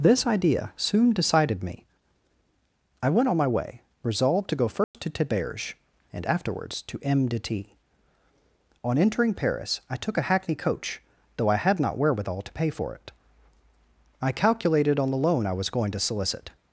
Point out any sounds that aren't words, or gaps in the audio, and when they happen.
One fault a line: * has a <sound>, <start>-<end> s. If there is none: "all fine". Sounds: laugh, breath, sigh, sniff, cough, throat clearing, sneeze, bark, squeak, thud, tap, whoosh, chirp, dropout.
* has a dropout, 4.8-4.9 s